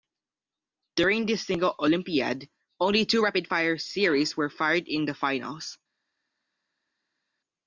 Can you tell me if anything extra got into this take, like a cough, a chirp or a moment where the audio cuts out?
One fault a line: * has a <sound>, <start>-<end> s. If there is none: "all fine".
all fine